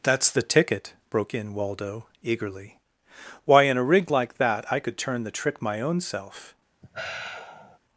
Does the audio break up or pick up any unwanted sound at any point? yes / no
yes